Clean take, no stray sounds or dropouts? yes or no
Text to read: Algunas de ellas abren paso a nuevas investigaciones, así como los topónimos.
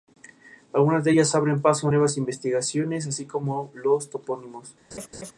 no